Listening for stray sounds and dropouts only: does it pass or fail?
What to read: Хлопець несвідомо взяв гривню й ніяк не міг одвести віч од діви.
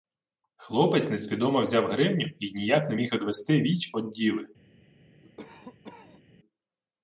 fail